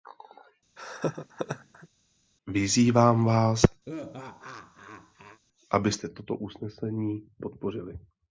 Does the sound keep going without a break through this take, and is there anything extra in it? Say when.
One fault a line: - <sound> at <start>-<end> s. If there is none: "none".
- laugh at 0.8-1.9 s
- laugh at 3.8-5.4 s